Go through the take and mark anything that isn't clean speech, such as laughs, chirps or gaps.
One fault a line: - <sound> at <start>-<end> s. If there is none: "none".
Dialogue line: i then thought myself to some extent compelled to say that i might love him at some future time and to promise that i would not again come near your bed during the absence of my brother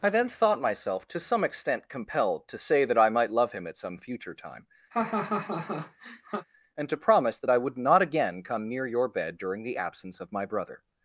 - laugh at 4.9-6.5 s